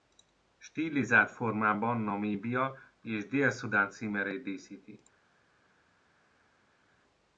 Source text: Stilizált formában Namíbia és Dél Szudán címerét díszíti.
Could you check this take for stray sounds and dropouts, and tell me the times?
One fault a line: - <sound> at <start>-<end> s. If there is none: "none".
none